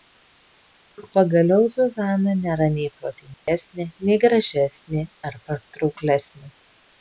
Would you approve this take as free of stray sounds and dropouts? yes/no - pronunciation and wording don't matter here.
no